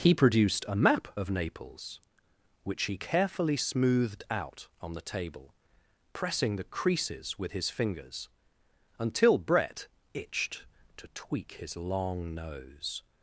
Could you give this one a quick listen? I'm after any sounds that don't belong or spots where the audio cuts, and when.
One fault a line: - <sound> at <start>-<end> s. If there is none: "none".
none